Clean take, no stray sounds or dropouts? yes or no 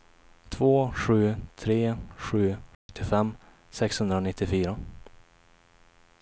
no